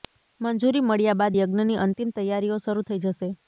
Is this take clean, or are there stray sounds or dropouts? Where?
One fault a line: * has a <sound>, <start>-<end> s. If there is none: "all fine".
all fine